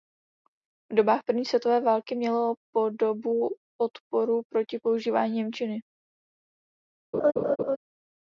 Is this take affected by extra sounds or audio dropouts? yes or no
yes